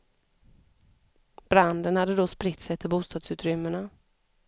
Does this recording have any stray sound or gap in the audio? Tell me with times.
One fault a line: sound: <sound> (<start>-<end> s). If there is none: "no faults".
no faults